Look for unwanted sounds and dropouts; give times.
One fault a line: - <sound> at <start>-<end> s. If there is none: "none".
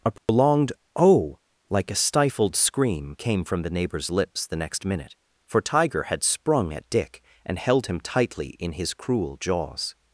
- dropout at 0.2-0.3 s